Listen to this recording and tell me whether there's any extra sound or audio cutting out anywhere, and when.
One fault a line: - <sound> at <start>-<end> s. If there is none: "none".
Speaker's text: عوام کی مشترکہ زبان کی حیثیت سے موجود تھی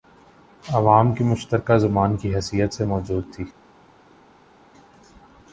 none